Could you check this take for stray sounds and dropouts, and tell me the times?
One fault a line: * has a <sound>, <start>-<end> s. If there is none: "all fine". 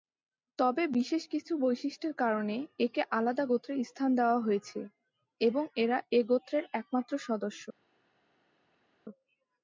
all fine